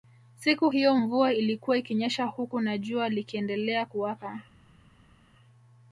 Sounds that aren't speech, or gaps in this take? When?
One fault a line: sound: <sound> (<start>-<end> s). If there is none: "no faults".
no faults